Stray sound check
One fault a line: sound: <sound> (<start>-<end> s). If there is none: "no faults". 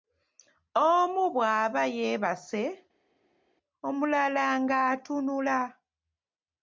no faults